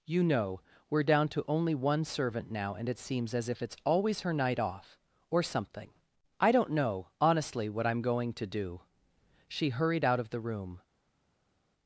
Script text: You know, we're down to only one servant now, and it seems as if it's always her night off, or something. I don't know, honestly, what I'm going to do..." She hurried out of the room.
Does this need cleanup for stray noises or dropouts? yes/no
no